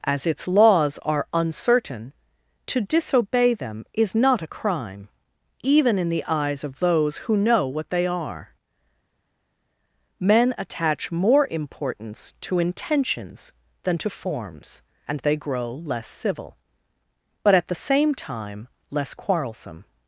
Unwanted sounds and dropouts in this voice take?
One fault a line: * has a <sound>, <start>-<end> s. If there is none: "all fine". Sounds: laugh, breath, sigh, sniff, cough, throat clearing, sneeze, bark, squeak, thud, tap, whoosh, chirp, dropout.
all fine